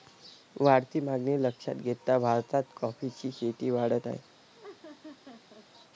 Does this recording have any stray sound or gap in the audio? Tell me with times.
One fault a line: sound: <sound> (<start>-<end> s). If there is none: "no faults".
sound: laugh (4.5-5.7 s)